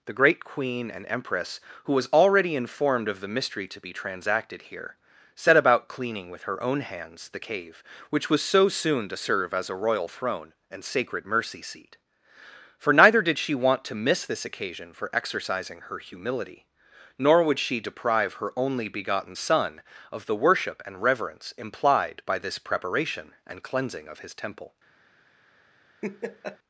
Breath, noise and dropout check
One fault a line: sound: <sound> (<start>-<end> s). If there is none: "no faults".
sound: laugh (26.0-26.6 s)